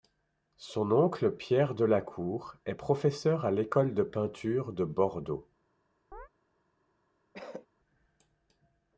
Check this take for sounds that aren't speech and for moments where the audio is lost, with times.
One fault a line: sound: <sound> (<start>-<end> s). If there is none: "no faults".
sound: chirp (6.1-6.3 s)
sound: cough (7.3-7.7 s)